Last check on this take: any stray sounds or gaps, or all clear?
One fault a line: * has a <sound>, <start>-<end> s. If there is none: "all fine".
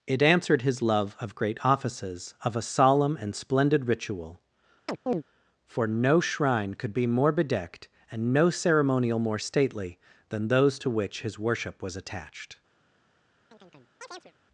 * has a chirp, 4.9-5.2 s
* has a chirp, 13.5-14.3 s